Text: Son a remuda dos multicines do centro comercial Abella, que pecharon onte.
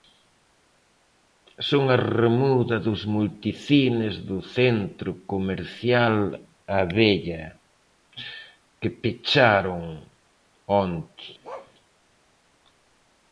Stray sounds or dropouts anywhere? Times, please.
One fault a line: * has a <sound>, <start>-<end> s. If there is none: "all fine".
* has a bark, 11.4-11.7 s